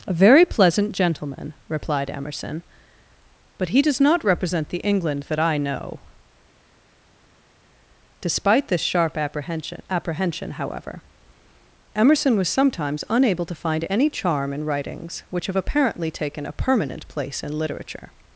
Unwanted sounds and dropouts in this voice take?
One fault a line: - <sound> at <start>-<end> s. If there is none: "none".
none